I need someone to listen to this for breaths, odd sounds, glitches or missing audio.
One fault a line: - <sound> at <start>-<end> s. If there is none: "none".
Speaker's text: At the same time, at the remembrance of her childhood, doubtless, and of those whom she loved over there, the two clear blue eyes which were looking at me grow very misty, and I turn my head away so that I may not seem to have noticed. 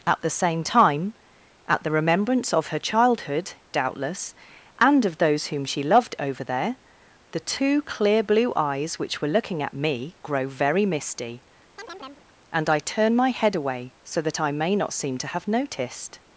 - chirp at 11.8-12.3 s